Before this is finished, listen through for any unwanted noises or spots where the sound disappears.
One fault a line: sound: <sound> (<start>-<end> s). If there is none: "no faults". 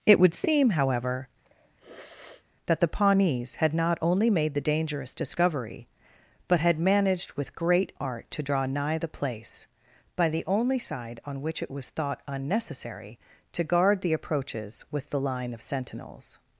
sound: sniff (1.4-2.5 s)